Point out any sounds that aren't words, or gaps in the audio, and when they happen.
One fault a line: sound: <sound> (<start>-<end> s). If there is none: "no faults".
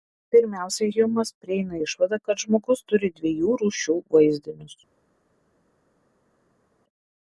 no faults